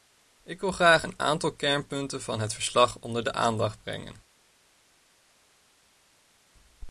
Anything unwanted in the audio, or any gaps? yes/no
no